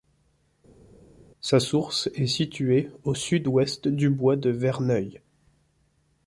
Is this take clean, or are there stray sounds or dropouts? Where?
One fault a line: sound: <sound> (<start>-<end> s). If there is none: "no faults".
no faults